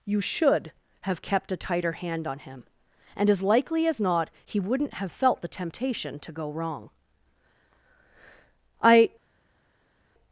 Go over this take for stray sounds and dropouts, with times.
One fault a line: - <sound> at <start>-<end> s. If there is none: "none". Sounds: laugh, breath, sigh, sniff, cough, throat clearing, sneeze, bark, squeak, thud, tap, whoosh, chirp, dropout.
none